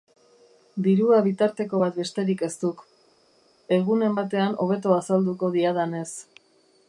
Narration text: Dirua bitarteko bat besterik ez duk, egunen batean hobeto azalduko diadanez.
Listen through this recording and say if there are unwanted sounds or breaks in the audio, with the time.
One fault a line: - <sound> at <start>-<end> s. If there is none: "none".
none